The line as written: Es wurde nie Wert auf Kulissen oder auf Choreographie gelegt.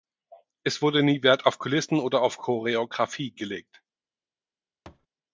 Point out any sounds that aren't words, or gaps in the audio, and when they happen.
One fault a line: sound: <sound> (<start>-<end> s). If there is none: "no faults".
sound: thud (4.9-5.1 s)